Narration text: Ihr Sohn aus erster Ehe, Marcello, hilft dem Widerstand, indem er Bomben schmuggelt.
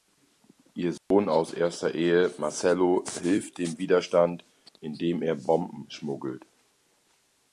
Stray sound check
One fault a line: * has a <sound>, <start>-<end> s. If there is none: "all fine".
* has a dropout, 1.0-1.1 s